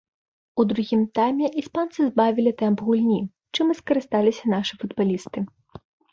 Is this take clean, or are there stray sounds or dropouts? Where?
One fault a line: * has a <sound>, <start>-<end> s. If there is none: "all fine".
all fine